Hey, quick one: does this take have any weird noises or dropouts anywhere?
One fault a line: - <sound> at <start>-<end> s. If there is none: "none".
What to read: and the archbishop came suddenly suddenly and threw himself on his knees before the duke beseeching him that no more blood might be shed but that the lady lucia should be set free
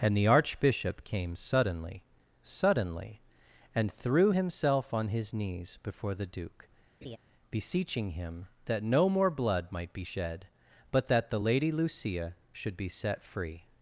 - laugh at 7.0-7.2 s